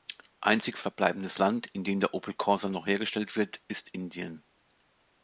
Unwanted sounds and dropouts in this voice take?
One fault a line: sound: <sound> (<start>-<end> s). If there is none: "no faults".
no faults